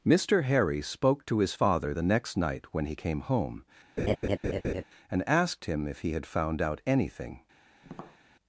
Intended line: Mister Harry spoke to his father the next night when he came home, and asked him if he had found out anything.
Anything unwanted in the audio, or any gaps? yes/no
yes